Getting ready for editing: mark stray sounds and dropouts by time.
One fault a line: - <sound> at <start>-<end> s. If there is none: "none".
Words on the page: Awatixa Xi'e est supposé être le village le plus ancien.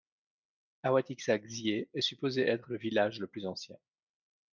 none